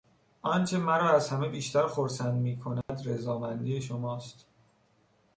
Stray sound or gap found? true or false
true